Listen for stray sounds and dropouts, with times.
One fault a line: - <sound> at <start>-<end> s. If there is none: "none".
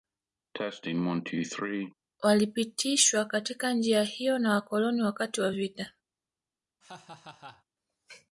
- cough at 0.5-1.9 s
- laugh at 6.8-7.6 s